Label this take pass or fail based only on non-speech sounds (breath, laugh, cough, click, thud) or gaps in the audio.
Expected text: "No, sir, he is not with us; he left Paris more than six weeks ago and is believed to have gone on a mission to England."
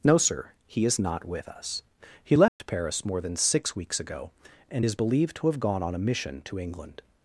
fail